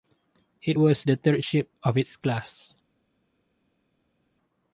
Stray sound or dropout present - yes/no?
no